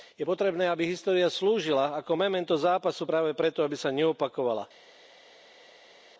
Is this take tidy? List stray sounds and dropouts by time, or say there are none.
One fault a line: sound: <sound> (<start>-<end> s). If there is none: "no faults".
no faults